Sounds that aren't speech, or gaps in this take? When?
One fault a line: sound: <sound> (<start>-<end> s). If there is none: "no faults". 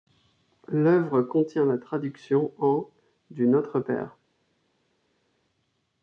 no faults